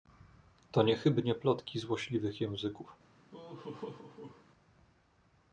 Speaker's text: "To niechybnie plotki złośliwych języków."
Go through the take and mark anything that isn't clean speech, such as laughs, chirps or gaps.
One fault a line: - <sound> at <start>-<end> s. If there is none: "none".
- laugh at 3.3-4.5 s